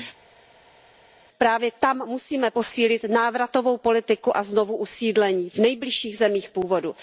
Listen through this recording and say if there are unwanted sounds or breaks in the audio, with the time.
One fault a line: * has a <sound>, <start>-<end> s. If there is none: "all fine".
all fine